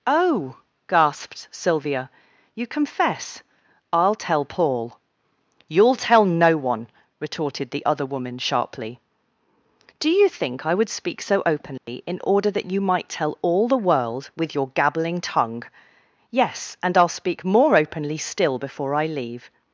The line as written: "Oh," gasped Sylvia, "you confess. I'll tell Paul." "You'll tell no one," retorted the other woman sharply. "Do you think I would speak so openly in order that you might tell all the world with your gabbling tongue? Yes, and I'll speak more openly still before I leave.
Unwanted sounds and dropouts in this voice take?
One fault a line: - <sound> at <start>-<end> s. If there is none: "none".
- dropout at 11.8-11.9 s